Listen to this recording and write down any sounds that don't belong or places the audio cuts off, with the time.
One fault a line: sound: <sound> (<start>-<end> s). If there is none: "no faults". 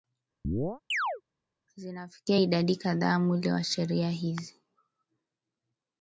sound: chirp (0.4-1.2 s)